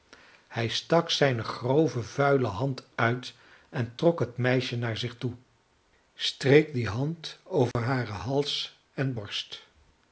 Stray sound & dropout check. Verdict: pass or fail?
fail